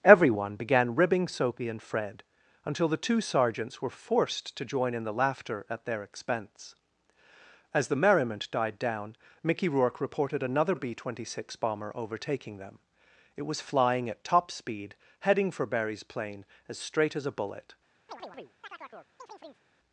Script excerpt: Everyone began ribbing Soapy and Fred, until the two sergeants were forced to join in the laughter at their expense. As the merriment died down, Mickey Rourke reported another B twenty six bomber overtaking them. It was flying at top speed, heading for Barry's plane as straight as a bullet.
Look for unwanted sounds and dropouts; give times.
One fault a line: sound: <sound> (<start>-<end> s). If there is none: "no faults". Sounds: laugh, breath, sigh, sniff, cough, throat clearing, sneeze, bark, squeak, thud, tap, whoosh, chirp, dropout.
sound: chirp (18.1-19.7 s)